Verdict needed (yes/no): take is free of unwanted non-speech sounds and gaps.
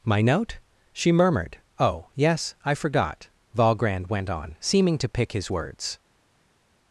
yes